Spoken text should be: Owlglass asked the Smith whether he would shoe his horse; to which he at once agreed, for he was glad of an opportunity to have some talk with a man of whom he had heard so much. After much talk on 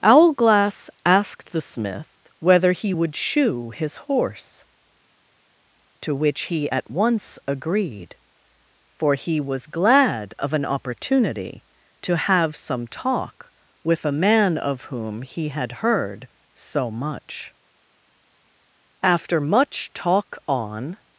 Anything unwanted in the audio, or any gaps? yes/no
no